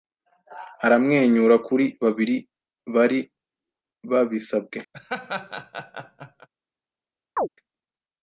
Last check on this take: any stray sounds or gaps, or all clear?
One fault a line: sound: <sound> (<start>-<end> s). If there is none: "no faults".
sound: laugh (4.9-6.5 s)
sound: chirp (7.4-7.5 s)